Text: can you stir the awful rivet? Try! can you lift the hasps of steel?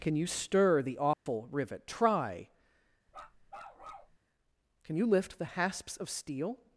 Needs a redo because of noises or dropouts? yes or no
yes